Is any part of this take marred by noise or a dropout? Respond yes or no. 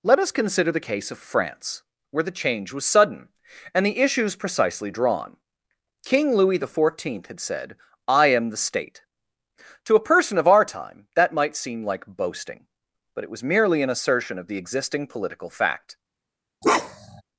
yes